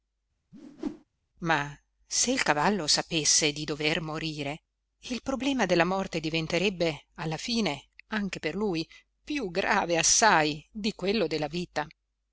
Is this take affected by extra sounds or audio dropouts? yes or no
yes